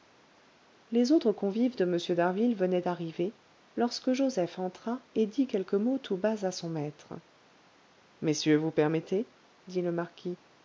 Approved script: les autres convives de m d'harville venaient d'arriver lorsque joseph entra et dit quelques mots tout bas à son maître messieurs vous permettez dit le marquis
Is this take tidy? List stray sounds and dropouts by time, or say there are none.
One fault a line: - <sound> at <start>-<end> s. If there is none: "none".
none